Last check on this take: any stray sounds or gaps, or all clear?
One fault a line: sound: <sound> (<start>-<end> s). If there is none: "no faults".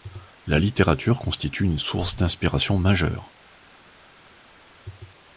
no faults